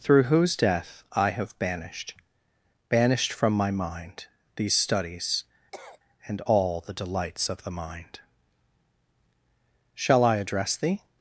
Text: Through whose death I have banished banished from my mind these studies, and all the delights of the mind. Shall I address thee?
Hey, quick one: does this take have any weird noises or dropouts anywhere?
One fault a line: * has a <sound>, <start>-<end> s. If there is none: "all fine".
* has a cough, 5.7-6.0 s